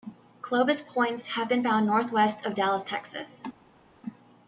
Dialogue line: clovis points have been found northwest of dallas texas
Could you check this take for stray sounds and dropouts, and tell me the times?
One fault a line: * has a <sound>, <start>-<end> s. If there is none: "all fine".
all fine